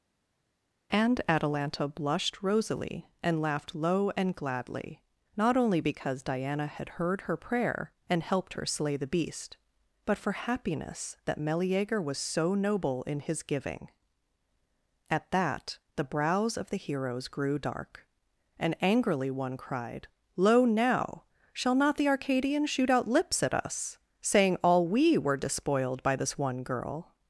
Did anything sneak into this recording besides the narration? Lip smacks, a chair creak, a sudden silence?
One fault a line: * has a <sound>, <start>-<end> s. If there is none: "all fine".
all fine